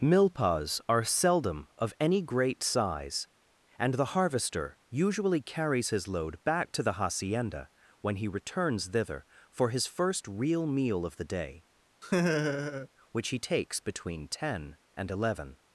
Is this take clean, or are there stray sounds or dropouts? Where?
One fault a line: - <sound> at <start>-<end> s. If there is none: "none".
- laugh at 12.0-12.9 s